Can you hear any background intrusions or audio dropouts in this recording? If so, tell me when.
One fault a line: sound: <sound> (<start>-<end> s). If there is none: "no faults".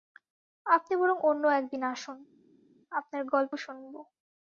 no faults